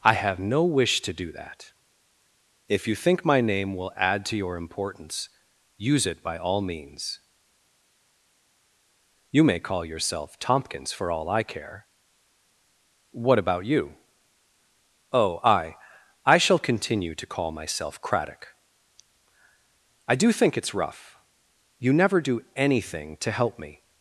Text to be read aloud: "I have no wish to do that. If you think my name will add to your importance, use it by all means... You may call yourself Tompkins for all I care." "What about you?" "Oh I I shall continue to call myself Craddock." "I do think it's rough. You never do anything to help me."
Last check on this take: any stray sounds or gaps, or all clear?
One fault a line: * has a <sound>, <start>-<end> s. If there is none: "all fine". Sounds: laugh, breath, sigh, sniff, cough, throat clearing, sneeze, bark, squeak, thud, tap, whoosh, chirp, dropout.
all fine